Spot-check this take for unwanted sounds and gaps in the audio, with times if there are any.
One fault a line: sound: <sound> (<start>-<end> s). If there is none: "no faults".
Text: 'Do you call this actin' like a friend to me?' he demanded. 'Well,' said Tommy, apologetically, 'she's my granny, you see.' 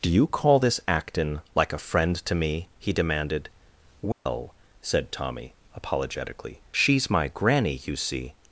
sound: dropout (4.1-4.3 s)